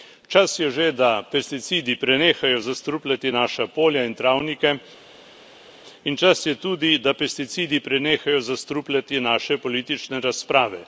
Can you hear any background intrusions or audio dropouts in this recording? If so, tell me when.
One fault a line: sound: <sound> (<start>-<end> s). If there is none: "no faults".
no faults